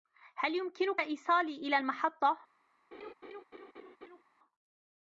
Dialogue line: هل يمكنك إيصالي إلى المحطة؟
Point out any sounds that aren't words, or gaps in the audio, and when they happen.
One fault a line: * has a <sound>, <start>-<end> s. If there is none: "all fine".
* has a laugh, 2.9-4.2 s